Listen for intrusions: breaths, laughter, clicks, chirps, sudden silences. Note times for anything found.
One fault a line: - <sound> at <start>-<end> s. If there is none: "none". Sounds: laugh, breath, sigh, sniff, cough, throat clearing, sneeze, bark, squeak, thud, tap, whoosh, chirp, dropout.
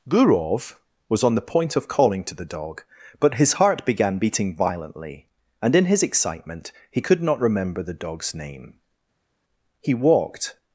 none